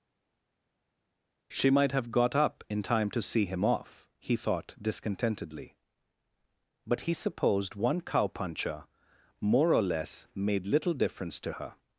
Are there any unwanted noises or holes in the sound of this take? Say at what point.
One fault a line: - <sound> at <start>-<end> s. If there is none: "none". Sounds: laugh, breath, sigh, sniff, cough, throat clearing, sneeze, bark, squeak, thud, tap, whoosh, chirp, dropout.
none